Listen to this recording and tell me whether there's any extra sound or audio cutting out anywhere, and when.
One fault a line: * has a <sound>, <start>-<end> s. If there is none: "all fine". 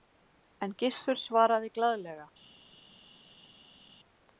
all fine